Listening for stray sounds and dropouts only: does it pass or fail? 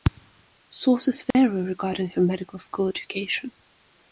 fail